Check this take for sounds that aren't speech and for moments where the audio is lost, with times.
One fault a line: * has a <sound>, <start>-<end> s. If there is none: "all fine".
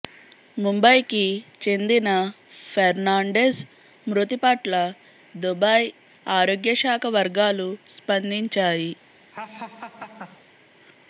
* has a laugh, 9.3-10.5 s